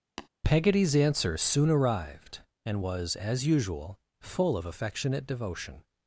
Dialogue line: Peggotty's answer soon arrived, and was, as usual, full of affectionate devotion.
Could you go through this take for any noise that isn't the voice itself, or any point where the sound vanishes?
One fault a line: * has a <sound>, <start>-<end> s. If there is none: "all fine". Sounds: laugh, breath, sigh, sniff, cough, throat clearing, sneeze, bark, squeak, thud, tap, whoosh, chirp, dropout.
* has a tap, 0.2-0.3 s